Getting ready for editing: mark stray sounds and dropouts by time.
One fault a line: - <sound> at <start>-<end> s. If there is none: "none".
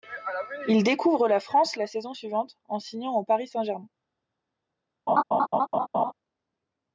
- laugh at 5.1-6.1 s